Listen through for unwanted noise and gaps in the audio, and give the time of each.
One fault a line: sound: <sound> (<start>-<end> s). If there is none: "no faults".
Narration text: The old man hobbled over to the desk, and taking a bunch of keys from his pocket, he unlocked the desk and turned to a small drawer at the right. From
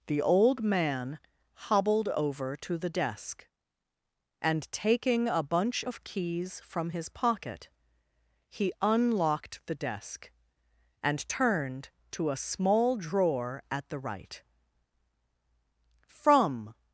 no faults